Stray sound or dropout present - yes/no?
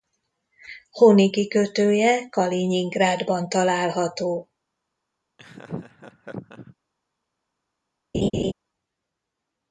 yes